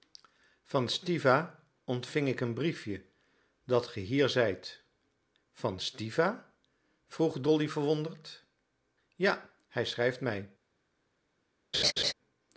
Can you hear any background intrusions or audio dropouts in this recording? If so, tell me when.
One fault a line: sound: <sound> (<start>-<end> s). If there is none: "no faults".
sound: laugh (11.7-12.1 s)